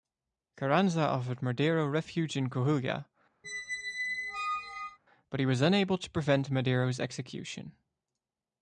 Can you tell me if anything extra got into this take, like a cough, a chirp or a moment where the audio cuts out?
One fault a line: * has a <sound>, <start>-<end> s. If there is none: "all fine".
* has a squeak, 3.4-5.0 s